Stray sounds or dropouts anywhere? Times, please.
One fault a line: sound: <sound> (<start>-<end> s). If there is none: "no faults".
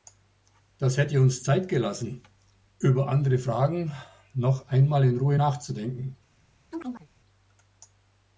sound: chirp (6.7-7.1 s)